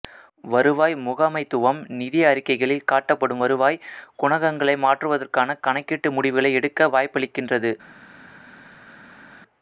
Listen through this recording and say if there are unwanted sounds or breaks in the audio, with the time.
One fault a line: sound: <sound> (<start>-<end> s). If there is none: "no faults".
no faults